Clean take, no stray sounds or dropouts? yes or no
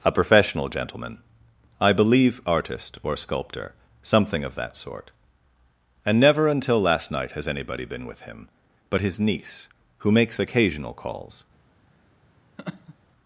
no